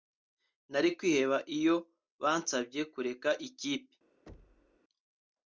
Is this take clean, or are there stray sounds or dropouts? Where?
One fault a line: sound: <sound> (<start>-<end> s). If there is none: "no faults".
sound: thud (4.3-4.8 s)